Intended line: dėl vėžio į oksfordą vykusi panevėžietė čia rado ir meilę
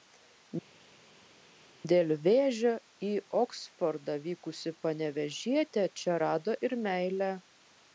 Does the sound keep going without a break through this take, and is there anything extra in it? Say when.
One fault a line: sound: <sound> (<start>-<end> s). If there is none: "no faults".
no faults